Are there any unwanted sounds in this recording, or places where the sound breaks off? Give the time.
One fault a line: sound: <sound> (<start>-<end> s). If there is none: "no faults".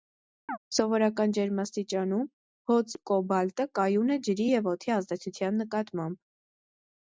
sound: chirp (0.5-0.6 s)